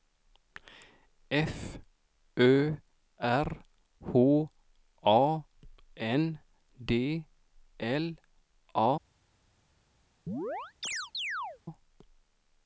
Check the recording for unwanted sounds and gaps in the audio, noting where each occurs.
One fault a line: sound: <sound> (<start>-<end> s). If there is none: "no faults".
sound: chirp (10.3-11.6 s)